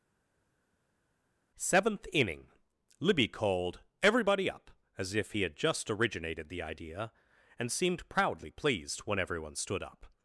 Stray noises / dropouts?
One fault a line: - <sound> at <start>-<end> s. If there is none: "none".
none